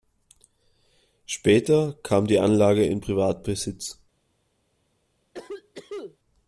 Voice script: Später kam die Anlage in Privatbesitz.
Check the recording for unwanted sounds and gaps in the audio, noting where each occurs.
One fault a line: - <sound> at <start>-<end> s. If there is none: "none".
- cough at 5.3-6.2 s